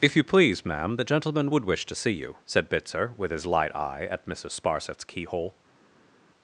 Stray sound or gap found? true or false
false